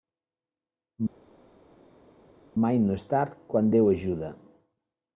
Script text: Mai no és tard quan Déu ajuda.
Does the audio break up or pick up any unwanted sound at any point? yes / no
no